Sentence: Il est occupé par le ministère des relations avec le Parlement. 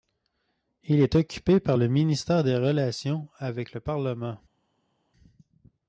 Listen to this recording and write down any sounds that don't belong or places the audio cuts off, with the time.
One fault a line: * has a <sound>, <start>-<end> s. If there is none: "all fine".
all fine